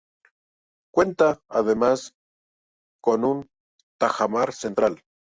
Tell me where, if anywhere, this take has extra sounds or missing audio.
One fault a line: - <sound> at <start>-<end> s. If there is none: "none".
none